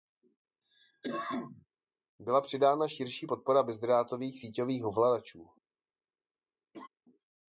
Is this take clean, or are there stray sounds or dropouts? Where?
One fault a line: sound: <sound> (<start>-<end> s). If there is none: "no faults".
sound: cough (0.6-1.7 s)
sound: laugh (6.7-6.9 s)